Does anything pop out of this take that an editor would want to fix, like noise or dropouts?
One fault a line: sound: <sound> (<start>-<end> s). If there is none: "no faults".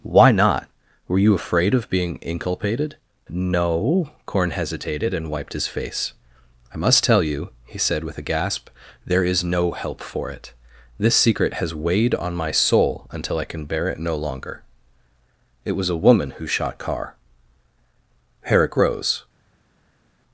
no faults